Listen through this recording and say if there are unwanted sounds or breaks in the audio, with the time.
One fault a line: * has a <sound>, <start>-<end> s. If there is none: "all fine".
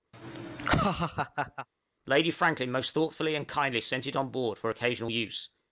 * has a laugh, 0.1-1.7 s